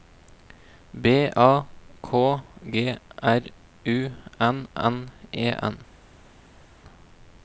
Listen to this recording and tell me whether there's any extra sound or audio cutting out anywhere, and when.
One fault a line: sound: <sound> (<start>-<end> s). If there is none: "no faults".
no faults